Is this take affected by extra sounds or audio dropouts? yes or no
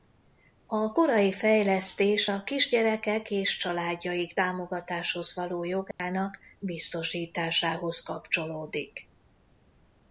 yes